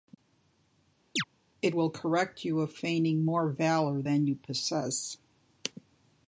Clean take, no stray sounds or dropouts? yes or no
no